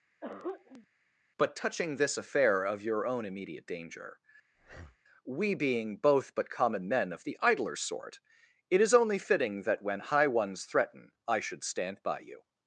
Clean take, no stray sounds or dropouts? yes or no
no